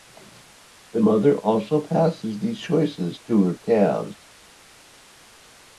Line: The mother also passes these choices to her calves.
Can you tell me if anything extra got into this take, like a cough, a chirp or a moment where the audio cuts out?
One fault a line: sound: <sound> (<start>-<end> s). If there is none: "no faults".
no faults